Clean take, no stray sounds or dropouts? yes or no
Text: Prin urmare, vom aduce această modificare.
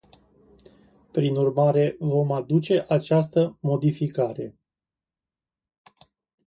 yes